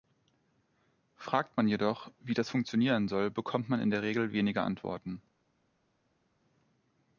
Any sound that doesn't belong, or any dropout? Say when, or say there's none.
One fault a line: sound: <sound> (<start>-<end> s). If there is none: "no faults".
no faults